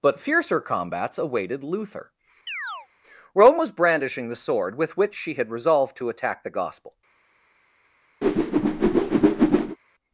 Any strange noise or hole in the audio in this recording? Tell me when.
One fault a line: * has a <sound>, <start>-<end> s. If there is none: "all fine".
* has a chirp, 2.5-2.9 s
* has a whoosh, 8.2-9.8 s